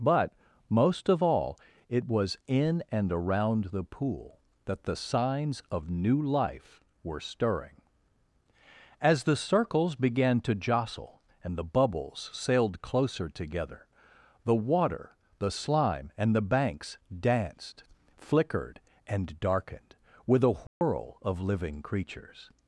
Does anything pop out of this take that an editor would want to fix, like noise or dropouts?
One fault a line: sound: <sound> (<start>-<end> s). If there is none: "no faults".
sound: dropout (20.7-20.8 s)